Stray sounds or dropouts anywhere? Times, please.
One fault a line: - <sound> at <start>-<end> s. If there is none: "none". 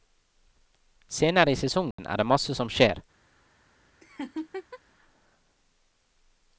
- dropout at 1.9-2.0 s
- laugh at 4.0-4.8 s